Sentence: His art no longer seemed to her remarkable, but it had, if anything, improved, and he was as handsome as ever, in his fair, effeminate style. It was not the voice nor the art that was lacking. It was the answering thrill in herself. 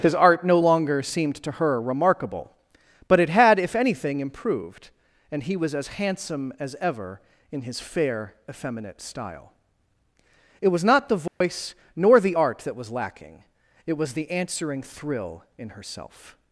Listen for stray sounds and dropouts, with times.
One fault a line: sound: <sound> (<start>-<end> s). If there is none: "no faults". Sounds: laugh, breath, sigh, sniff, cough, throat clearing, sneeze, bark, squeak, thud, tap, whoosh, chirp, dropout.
sound: dropout (11.3-11.4 s)